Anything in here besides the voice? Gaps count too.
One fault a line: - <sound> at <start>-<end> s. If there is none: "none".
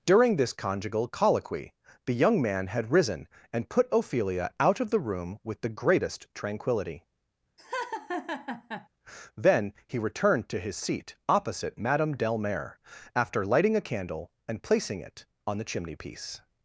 - laugh at 7.6-8.9 s